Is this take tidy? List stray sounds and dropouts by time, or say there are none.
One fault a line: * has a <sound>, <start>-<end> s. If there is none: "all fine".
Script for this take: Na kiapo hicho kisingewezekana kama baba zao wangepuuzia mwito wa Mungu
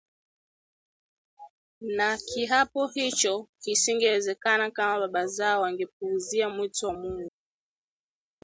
all fine